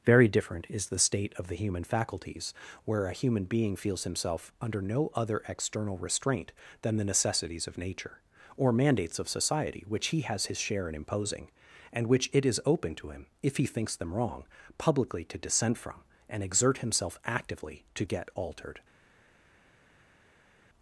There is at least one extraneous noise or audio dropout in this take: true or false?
false